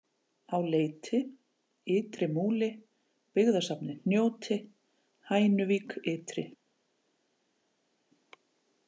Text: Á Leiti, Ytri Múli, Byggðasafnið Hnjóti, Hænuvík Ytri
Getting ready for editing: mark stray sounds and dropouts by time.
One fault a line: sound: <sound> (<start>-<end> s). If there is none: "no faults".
no faults